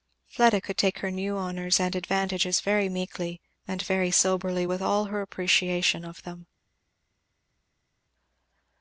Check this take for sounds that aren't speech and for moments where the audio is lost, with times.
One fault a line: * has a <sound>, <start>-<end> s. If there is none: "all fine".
all fine